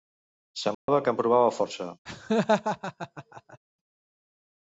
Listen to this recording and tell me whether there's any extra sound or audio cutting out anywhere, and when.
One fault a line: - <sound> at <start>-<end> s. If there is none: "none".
- dropout at 0.7-0.9 s
- laugh at 2.1-3.6 s